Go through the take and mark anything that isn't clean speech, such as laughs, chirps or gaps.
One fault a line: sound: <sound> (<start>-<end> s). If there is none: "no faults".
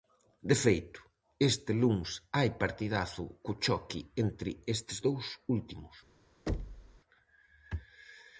sound: thud (6.5-7.0 s)